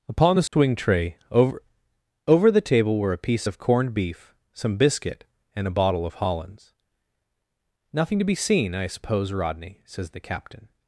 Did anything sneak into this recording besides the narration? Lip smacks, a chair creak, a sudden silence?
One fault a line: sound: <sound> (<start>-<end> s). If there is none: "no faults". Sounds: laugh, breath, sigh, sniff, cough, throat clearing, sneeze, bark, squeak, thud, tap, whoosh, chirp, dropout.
sound: dropout (0.5-0.5 s)